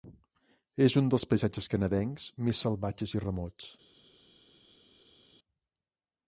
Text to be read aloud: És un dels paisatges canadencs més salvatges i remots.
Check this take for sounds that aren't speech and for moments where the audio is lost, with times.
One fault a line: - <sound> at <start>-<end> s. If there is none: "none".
none